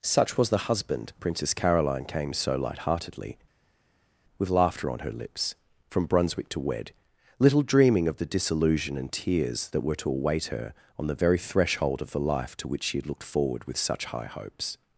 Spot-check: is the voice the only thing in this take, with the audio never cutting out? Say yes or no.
yes